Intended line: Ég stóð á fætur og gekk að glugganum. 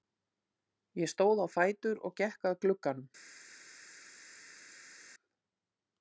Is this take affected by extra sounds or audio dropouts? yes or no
no